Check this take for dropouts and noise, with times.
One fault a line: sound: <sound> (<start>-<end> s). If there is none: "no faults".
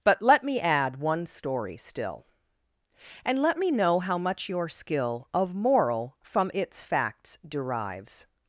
no faults